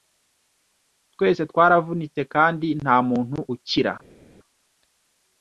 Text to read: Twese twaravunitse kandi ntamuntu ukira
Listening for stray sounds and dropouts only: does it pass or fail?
pass